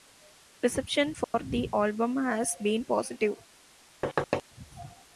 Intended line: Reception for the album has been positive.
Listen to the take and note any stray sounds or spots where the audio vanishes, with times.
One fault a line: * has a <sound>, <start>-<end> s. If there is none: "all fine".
* has a dropout, 1.2-1.3 s
* has a thud, 4.0-4.4 s